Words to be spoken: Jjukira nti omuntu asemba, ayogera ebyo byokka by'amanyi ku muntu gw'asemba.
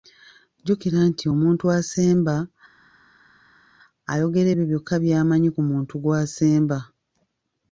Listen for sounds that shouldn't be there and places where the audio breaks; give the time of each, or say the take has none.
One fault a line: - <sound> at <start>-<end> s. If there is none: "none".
none